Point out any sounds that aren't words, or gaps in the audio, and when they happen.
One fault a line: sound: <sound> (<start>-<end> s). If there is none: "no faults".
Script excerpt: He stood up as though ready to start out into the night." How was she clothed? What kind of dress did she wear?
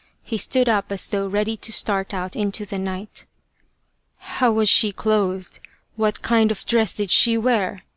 no faults